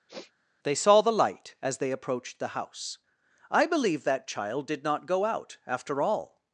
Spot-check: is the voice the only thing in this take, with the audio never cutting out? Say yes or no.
no